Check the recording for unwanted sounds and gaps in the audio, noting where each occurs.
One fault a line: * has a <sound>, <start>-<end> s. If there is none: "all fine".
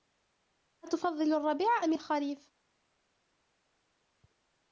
all fine